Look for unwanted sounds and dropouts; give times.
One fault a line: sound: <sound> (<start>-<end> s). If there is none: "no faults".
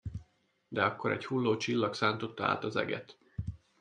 no faults